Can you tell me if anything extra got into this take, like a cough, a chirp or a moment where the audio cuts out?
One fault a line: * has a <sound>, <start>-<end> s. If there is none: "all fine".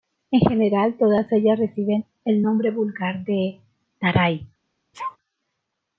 * has a sneeze, 4.9-5.2 s